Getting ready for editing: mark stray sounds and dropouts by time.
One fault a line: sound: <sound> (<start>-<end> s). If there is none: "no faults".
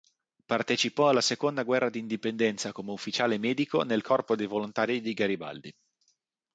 no faults